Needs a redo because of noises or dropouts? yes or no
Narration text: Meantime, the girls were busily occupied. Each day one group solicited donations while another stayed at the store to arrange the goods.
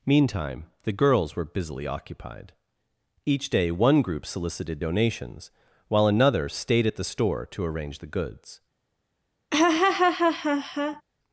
yes